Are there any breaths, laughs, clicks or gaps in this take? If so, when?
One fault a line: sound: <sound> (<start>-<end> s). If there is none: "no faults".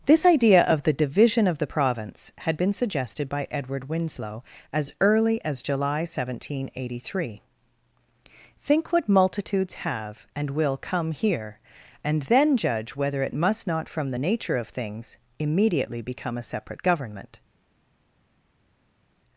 no faults